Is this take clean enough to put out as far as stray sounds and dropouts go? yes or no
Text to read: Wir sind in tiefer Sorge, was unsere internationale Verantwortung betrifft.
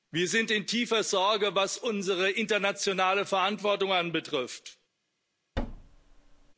no